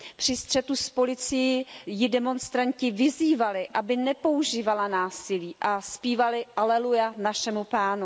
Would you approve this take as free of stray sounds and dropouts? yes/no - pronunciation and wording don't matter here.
yes